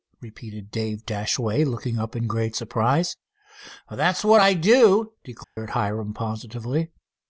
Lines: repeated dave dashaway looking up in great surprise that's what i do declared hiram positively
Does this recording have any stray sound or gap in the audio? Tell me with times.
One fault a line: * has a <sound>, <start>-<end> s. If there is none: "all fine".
* has a dropout, 5.4-5.6 s